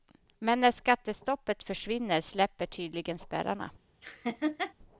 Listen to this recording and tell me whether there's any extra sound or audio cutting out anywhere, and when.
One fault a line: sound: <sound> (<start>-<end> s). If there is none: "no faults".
sound: laugh (4.0-4.7 s)